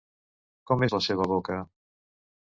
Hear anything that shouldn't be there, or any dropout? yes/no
no